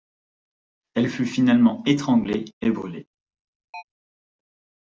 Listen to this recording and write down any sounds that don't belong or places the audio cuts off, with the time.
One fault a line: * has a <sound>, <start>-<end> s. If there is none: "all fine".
* has a chirp, 3.7-3.8 s